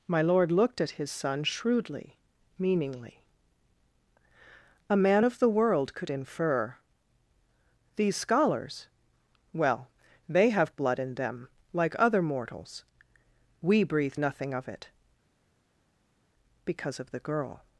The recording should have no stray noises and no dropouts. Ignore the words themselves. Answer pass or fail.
pass